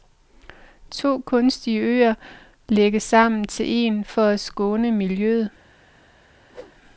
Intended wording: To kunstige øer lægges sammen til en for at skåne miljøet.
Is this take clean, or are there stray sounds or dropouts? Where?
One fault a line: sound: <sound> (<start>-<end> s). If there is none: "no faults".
sound: whoosh (6.5-6.7 s)